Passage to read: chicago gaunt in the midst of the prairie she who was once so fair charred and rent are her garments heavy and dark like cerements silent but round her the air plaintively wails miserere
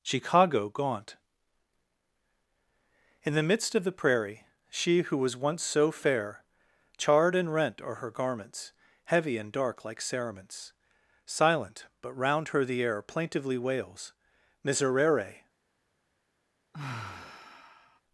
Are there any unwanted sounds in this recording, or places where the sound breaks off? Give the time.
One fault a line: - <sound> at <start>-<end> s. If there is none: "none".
- sigh at 16.7-18.0 s